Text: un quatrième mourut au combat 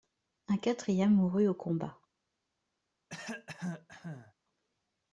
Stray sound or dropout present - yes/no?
yes